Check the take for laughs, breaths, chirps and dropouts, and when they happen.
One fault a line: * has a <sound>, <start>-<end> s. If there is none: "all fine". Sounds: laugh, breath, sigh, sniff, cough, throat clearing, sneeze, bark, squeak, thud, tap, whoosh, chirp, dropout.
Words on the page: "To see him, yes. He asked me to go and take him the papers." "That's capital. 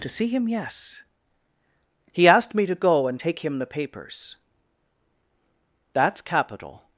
all fine